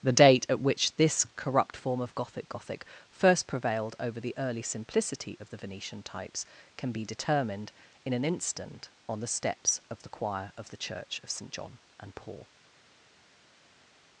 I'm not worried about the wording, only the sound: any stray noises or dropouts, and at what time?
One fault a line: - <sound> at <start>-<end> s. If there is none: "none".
none